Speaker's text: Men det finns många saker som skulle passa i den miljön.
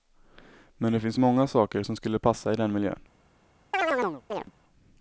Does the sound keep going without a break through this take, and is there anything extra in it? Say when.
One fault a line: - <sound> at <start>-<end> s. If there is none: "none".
- chirp at 3.7-4.5 s